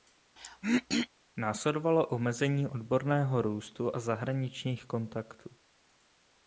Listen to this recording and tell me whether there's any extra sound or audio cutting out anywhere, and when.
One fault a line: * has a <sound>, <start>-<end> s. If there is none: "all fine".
* has a throat clearing, 0.4-1.1 s